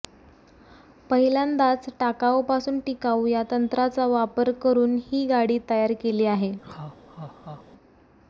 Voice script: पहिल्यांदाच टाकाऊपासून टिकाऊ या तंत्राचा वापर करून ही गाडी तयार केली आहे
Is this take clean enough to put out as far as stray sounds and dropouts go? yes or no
no